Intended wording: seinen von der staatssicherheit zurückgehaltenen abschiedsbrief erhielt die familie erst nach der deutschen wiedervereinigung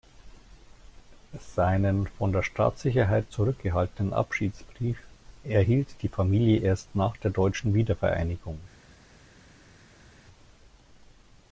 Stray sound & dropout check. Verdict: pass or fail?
pass